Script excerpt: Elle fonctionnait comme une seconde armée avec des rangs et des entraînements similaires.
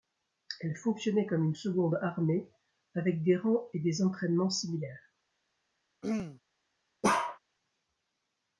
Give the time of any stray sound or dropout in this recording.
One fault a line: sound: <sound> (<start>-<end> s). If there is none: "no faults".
sound: throat clearing (6.0-6.4 s)
sound: bark (7.0-7.4 s)